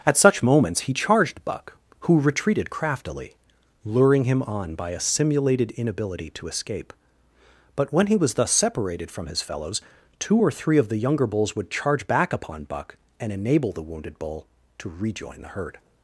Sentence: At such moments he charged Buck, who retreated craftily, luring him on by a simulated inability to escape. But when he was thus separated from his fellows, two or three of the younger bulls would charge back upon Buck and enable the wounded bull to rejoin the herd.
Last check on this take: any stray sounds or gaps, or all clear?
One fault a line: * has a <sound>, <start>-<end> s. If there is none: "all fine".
all fine